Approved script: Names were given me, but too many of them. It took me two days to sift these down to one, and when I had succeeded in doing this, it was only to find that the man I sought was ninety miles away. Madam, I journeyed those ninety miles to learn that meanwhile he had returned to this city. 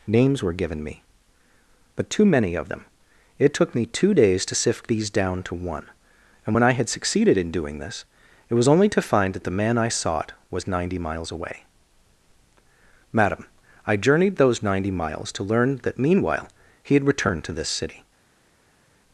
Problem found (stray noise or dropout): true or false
false